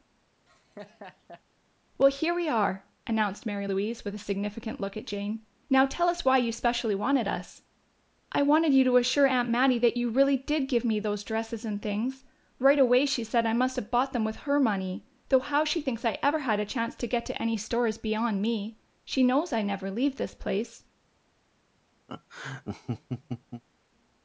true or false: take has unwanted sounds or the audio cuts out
true